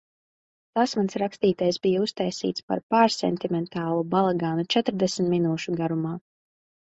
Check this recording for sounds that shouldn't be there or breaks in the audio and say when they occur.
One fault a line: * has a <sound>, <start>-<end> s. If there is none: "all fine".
all fine